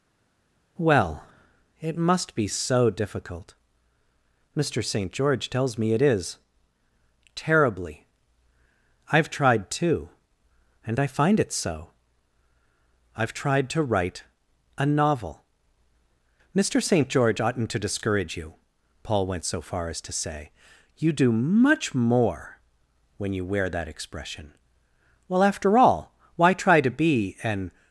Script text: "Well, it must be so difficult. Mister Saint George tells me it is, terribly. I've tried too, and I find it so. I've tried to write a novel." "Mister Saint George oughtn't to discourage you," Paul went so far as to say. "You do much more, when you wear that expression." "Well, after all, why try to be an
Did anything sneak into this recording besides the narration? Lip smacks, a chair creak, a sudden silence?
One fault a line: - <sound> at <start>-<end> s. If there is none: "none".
none